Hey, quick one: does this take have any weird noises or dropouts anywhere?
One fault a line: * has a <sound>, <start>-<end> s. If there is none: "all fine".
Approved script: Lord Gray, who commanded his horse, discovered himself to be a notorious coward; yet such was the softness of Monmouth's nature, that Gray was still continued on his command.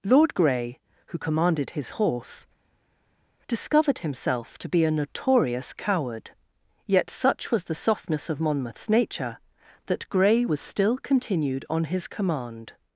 all fine